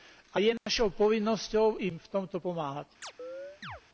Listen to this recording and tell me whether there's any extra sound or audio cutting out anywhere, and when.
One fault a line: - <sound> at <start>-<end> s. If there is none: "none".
- dropout at 0.6-0.7 s
- chirp at 3.0-3.8 s